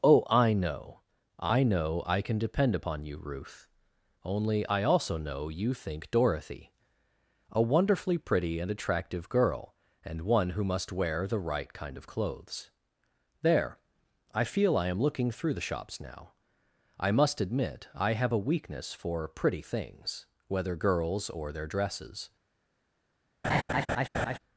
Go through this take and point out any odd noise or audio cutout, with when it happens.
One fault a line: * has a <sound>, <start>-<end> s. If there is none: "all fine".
* has a laugh, 23.4-24.4 s